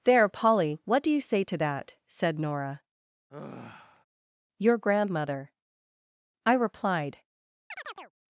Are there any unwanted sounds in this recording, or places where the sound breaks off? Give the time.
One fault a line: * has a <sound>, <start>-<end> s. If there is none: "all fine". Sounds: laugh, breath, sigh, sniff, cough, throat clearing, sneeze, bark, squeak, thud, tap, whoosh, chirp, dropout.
* has a sigh, 3.3-4.0 s
* has a chirp, 7.7-8.1 s